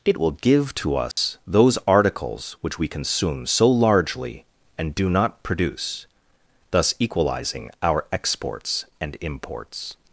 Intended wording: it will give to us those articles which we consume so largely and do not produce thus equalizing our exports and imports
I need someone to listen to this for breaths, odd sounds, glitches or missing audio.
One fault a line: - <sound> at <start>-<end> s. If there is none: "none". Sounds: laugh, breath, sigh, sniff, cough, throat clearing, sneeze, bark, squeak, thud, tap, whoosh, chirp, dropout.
- dropout at 1.1-1.2 s